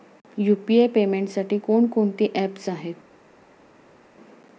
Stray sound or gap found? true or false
false